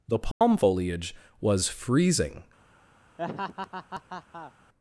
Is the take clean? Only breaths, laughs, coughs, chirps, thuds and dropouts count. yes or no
no